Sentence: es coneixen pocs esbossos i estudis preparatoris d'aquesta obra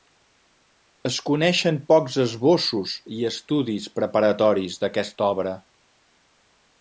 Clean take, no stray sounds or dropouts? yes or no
yes